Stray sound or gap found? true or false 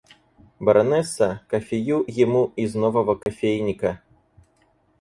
true